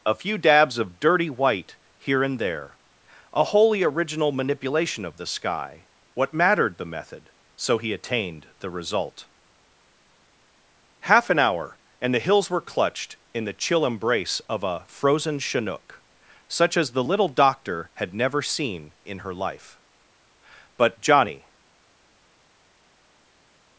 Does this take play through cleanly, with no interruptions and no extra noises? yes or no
yes